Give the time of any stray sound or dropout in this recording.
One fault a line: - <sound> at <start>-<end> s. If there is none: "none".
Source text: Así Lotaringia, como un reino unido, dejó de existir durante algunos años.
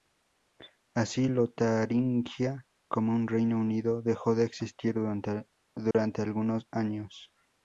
- dropout at 5.9-5.9 s